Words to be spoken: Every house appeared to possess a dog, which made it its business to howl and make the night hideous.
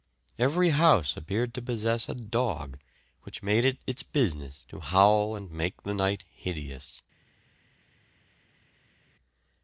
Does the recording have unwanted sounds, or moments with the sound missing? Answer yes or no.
no